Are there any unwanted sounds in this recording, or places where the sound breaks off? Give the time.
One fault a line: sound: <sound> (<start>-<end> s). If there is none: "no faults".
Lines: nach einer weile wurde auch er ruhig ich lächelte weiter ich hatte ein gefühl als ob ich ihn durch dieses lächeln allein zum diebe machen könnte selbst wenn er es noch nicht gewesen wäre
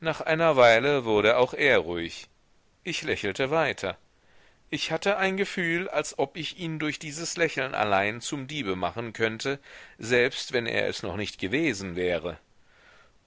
no faults